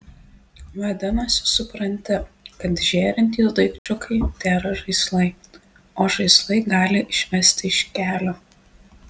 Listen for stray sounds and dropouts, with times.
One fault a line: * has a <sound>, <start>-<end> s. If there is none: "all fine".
* has a dropout, 3.8-3.9 s